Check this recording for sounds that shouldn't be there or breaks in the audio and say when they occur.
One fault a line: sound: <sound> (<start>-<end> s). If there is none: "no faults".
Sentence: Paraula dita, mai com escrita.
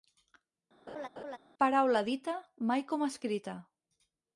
sound: laugh (0.9-1.4 s)